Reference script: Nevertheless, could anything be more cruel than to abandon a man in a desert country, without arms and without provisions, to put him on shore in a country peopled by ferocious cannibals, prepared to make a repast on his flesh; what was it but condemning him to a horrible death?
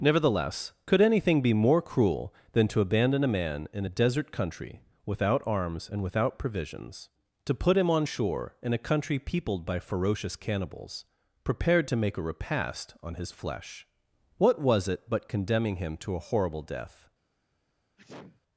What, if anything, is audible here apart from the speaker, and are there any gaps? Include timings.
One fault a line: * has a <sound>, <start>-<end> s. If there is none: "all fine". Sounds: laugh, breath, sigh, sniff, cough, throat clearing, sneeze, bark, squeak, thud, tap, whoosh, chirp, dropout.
* has a sneeze, 18.0-18.4 s